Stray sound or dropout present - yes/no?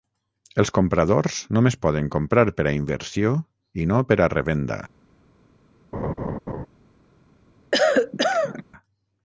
yes